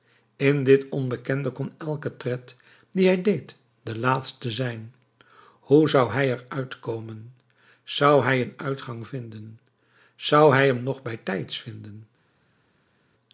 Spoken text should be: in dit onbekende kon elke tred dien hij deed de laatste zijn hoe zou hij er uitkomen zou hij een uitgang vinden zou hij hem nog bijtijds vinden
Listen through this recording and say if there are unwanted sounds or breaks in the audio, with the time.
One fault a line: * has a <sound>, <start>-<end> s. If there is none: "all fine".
all fine